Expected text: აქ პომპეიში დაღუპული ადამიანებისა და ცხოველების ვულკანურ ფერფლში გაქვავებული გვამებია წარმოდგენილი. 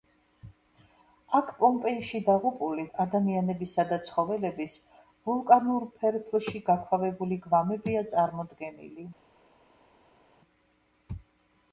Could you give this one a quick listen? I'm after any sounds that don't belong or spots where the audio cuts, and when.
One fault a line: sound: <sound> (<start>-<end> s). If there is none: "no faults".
no faults